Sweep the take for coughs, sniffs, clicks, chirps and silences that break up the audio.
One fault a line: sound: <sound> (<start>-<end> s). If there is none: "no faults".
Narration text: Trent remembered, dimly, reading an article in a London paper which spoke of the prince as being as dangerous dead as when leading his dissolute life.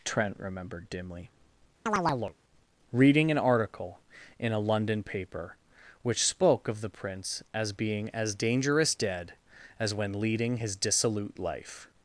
sound: chirp (1.9-2.4 s)